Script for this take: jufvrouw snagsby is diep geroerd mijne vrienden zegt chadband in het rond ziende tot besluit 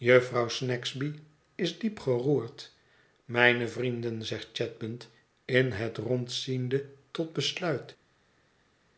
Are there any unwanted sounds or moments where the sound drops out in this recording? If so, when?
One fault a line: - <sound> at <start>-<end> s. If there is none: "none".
none